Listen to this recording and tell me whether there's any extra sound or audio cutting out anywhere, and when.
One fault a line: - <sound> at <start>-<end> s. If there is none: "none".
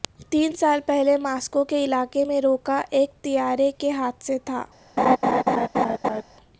- laugh at 5.0-6.2 s